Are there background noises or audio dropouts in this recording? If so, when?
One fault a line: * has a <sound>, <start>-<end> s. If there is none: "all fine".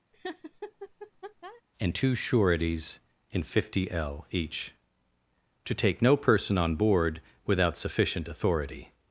* has a laugh, 0.1-1.6 s